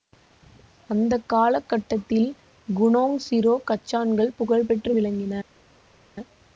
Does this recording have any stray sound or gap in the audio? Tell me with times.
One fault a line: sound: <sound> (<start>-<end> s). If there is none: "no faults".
no faults